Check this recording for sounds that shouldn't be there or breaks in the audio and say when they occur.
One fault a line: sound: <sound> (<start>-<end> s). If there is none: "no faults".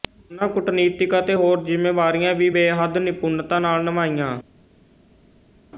no faults